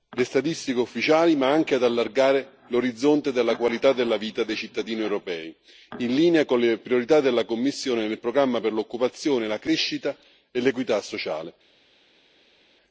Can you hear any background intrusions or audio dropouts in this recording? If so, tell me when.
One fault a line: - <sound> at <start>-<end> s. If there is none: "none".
none